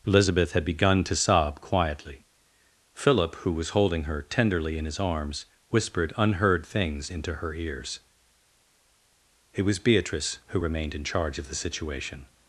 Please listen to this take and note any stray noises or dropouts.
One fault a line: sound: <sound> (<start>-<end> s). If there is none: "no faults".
no faults